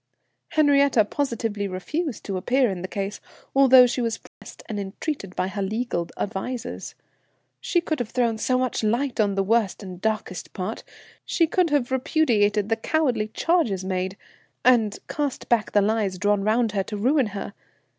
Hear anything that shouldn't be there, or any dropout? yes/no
yes